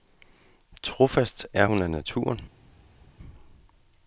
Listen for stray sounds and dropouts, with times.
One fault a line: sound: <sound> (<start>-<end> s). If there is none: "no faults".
no faults